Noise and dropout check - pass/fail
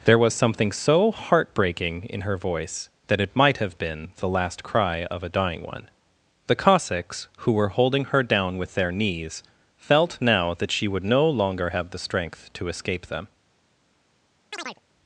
fail